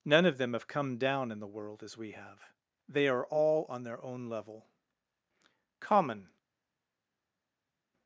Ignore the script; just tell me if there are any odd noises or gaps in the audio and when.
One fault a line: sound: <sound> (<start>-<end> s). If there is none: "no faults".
no faults